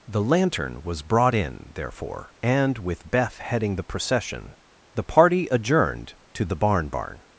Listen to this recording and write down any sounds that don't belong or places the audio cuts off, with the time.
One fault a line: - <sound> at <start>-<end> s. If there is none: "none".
none